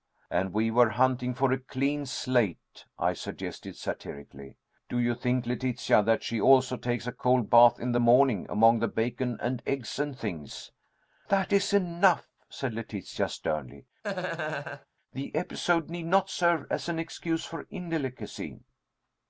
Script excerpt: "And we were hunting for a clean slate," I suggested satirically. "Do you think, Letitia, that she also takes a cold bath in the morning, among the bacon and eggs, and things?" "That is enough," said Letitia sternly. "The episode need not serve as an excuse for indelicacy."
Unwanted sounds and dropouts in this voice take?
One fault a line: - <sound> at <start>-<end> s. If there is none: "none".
- laugh at 14.0-14.9 s